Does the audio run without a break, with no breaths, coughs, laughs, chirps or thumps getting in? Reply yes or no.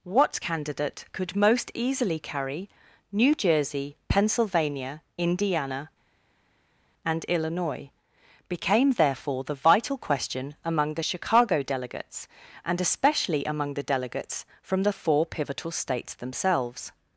yes